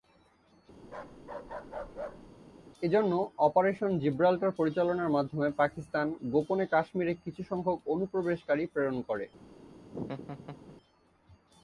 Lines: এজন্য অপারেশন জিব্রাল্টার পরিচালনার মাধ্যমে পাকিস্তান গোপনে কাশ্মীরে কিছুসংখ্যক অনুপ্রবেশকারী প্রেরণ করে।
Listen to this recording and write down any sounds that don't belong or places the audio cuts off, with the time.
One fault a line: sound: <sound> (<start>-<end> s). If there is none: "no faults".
sound: bark (0.8-2.3 s)
sound: laugh (9.8-10.8 s)